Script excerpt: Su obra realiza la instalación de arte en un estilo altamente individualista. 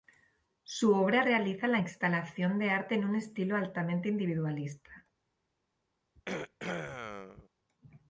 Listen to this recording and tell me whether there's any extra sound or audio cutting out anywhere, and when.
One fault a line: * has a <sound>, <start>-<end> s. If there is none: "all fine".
* has a throat clearing, 6.2-7.5 s